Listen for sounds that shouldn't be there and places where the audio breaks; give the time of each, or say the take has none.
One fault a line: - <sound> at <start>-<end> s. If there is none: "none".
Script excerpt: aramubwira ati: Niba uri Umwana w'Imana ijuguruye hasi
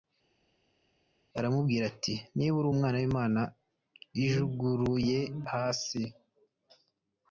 none